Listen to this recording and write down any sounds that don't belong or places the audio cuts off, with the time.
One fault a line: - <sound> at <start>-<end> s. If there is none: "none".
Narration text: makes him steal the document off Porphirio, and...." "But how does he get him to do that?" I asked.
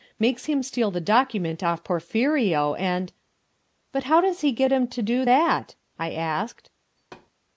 - thud at 7.0-7.3 s